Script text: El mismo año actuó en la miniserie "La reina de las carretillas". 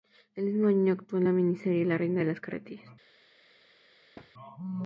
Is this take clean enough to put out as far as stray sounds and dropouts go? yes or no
no